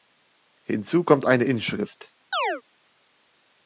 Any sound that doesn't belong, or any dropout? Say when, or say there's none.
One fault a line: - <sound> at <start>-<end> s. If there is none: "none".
- chirp at 2.3-2.6 s